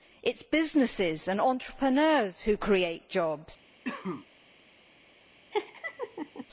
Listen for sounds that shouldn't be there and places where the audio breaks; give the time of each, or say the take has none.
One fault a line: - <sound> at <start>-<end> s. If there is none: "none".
- cough at 3.8-4.3 s
- laugh at 5.5-6.5 s